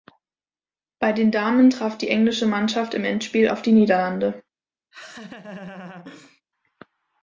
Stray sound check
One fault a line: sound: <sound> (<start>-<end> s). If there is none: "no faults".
sound: laugh (4.9-6.4 s)